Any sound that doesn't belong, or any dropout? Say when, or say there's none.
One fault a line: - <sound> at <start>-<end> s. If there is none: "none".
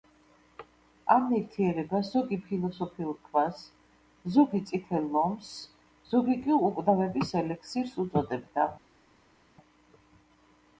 none